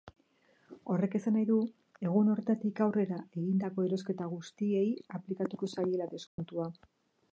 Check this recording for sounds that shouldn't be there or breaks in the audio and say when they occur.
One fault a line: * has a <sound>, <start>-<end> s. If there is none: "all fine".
* has a dropout, 6.3-6.4 s